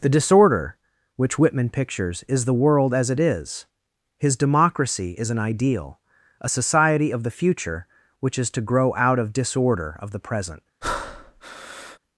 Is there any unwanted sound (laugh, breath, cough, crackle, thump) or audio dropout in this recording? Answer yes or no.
yes